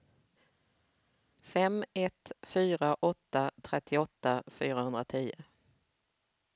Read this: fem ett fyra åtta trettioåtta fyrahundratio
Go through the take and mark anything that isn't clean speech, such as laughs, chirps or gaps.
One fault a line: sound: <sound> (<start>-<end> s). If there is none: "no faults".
no faults